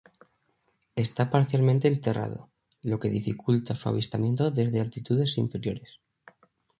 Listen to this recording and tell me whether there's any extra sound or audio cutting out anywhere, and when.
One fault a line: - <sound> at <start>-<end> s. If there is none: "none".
none